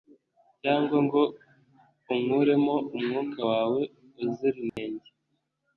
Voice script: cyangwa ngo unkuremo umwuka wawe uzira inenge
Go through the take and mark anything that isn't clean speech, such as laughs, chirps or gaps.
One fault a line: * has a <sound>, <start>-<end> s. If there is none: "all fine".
* has a dropout, 4.7-4.8 s